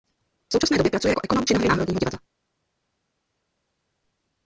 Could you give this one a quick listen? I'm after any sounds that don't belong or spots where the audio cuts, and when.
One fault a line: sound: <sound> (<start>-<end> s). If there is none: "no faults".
no faults